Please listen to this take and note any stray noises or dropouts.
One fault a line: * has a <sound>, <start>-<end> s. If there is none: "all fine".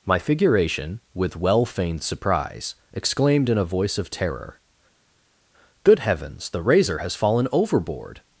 all fine